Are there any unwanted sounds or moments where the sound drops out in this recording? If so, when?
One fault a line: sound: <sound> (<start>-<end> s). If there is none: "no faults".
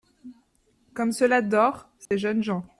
sound: dropout (2.1-2.1 s)